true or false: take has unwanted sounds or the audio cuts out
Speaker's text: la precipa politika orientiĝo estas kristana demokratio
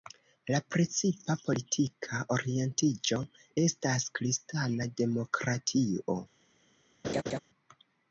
true